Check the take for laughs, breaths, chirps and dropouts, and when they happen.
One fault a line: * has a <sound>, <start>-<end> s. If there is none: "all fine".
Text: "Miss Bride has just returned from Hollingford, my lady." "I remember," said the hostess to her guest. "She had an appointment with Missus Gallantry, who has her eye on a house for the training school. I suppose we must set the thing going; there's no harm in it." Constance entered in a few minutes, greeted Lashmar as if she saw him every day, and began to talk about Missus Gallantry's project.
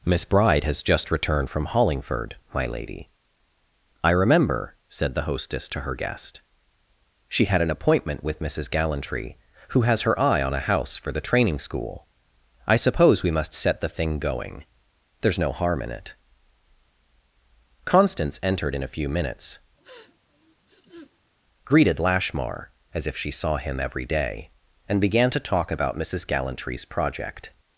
* has a sniff, 19.8-21.3 s